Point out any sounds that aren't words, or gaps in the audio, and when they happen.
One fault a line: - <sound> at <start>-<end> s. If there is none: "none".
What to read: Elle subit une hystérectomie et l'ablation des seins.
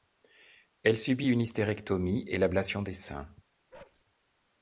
- bark at 3.7-4.0 s